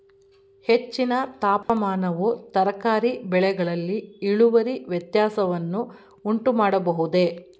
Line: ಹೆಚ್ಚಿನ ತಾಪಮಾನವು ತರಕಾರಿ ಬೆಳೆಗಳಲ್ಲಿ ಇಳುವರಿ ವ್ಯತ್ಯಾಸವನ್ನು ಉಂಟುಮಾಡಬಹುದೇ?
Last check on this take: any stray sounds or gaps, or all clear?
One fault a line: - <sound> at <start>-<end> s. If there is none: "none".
- dropout at 1.6-1.7 s